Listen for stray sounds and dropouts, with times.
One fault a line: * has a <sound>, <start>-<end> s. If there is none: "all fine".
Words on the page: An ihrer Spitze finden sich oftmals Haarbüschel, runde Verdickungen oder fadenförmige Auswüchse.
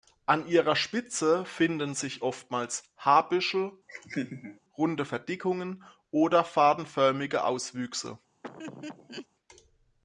* has a laugh, 3.9-4.6 s
* has a laugh, 8.4-9.3 s